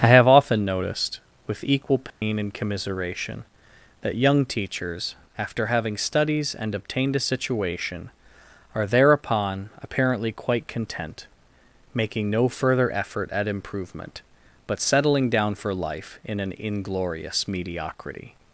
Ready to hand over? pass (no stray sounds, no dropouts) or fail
fail